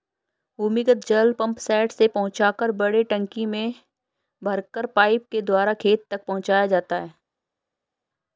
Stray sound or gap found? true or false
false